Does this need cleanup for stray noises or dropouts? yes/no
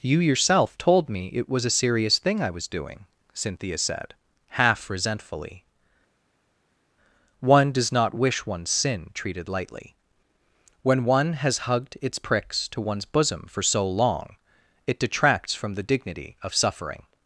no